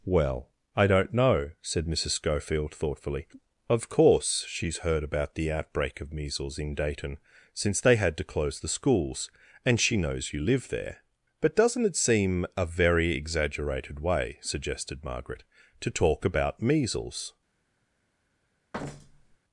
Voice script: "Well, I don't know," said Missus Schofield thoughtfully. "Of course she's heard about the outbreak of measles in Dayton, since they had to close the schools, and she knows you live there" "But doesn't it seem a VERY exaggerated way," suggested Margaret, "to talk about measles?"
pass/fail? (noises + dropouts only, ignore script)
fail